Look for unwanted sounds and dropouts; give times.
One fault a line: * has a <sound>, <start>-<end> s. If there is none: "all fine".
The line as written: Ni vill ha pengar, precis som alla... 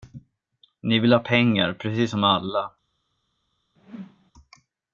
* has a whoosh, 3.8-4.3 s